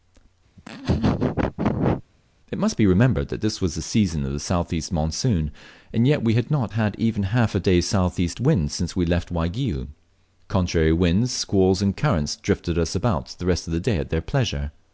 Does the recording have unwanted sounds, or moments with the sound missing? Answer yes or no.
yes